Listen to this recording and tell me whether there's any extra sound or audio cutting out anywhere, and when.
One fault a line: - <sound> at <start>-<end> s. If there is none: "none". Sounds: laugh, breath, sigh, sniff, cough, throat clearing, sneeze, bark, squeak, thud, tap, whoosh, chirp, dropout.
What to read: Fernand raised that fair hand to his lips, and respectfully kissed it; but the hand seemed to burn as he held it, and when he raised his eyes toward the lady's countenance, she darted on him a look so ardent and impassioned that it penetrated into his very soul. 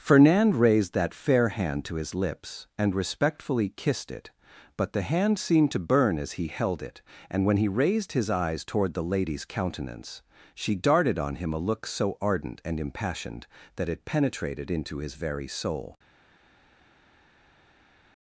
none